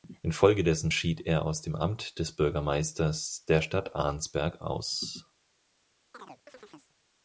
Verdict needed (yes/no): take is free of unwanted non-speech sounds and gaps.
no